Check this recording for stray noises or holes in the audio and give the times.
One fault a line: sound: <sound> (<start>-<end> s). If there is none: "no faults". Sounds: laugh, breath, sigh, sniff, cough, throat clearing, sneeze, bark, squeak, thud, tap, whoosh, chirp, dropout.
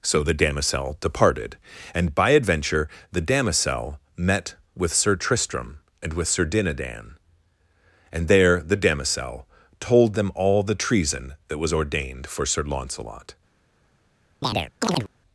sound: chirp (14.4-15.1 s)